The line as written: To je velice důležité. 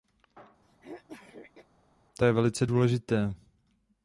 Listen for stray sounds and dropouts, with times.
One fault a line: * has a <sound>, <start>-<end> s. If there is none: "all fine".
* has a throat clearing, 0.6-1.7 s